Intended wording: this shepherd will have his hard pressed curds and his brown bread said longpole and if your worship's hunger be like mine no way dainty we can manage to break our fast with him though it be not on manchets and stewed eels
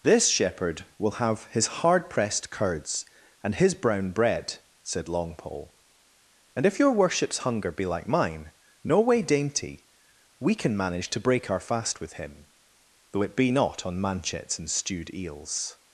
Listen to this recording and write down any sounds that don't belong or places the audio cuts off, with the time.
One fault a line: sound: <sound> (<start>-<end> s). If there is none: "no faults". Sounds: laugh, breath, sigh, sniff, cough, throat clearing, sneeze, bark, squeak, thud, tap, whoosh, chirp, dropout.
no faults